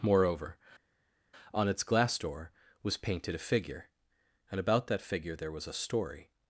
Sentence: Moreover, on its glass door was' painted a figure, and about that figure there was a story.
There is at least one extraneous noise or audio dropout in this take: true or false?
false